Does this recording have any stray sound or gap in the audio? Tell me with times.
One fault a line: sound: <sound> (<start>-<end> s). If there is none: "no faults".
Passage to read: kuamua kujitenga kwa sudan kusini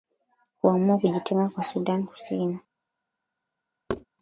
sound: thud (3.9-4.1 s)